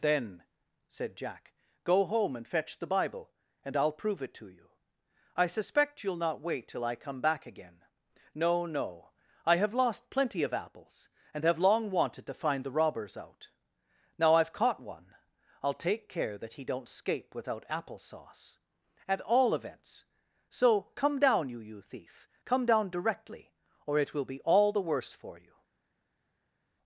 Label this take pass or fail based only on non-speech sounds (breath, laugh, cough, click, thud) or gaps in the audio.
pass